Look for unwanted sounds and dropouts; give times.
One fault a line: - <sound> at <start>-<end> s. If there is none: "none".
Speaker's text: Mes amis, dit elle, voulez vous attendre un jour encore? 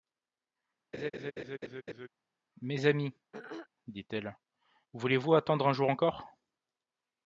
- laugh at 0.9-2.1 s
- throat clearing at 3.3-3.7 s